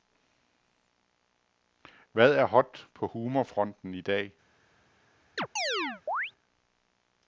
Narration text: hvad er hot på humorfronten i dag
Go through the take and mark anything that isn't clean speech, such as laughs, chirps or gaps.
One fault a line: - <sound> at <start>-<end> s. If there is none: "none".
- chirp at 5.4-6.3 s